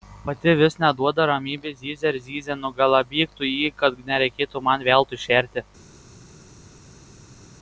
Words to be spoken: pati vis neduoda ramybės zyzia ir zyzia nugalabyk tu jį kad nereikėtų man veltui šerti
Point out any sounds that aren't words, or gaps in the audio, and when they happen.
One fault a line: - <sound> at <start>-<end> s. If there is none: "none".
none